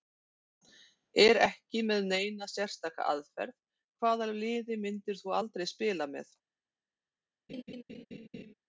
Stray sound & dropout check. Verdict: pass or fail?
fail